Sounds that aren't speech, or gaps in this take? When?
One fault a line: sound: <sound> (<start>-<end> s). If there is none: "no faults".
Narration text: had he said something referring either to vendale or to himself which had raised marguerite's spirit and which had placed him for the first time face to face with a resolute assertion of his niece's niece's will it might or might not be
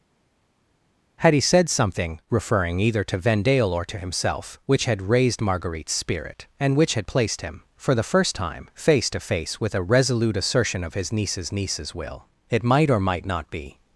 no faults